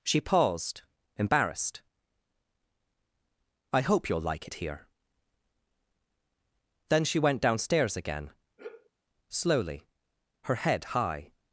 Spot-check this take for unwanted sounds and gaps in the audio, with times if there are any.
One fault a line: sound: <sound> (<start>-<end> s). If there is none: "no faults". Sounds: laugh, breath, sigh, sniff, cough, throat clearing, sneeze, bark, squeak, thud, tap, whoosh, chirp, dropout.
sound: sigh (8.6-8.9 s)